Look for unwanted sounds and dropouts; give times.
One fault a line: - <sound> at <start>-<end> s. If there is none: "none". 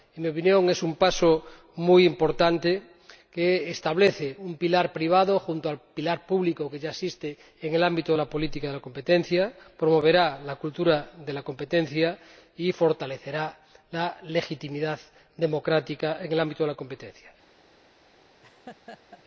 - laugh at 18.4-19.2 s